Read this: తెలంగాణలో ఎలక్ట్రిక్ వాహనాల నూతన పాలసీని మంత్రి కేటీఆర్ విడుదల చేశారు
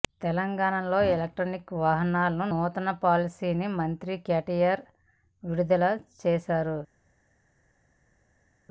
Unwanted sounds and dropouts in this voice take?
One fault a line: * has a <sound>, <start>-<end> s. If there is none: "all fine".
all fine